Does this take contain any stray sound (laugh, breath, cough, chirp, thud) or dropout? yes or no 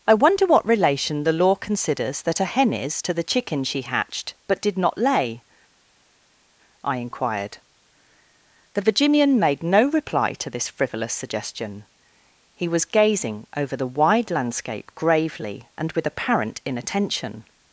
no